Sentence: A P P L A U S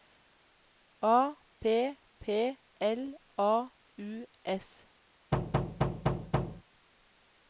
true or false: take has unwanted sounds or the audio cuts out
true